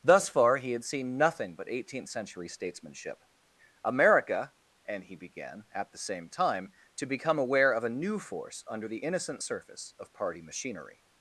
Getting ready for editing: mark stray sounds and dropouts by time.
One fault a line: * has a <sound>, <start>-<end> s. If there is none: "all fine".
all fine